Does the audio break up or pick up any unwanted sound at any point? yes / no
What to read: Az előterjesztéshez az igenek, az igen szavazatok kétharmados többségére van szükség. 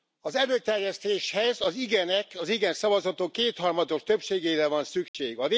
yes